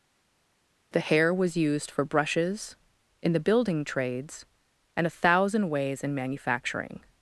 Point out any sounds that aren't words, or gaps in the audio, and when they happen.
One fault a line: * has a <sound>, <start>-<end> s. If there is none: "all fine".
all fine